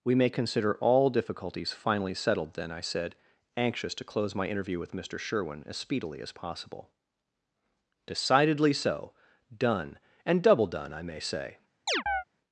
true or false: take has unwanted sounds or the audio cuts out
true